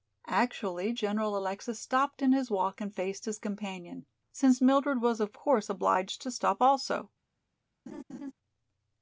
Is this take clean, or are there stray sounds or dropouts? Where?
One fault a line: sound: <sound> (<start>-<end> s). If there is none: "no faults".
sound: laugh (7.9-8.3 s)